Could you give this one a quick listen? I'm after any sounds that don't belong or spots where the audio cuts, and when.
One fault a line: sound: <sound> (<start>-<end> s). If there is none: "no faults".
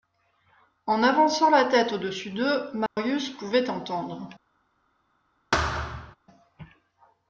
sound: dropout (2.9-3.0 s)
sound: thud (5.5-6.2 s)